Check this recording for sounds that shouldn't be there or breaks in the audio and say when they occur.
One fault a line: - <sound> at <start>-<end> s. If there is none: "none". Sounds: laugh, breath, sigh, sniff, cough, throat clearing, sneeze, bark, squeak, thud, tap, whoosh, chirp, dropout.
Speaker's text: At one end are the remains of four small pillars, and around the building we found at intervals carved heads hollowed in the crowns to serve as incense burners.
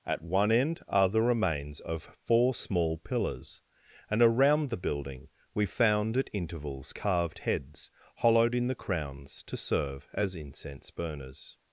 none